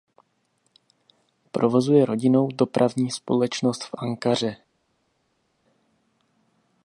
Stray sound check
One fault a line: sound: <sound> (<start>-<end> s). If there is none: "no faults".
no faults